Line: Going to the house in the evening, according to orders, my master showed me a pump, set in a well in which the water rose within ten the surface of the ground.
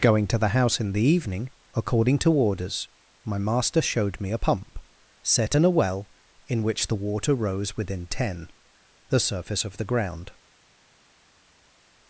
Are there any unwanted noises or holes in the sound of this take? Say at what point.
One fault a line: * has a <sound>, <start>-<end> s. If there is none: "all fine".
all fine